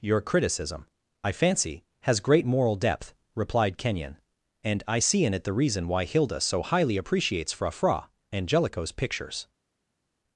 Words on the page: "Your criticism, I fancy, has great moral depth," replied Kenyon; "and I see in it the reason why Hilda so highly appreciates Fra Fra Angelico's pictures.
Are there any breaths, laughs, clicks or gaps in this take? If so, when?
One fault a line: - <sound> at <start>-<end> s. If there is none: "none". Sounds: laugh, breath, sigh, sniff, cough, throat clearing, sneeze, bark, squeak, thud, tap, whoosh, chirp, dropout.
none